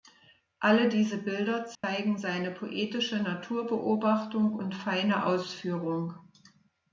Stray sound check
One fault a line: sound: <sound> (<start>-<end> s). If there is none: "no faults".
sound: dropout (1.7-1.8 s)